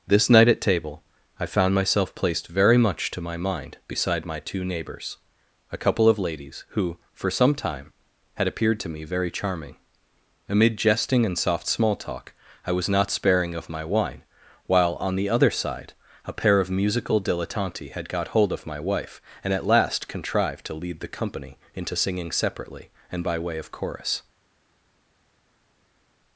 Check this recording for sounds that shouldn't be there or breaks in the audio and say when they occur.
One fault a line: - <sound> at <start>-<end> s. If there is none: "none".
none